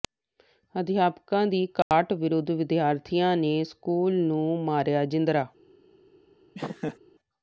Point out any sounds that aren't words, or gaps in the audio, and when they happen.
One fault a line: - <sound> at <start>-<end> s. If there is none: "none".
- dropout at 1.8-1.9 s
- laugh at 6.5-7.0 s